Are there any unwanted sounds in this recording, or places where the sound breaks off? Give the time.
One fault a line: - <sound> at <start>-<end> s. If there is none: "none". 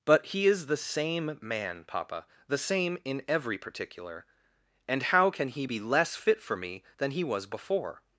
none